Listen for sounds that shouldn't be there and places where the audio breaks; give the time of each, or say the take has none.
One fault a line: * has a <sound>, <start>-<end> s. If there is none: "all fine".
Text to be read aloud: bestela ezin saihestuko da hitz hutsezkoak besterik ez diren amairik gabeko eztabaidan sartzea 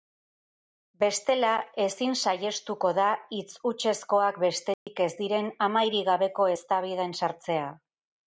* has a dropout, 4.7-4.9 s